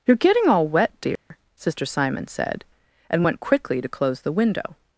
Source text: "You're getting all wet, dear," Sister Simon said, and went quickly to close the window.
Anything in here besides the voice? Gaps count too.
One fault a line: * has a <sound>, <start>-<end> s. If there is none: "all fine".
* has a dropout, 1.2-1.3 s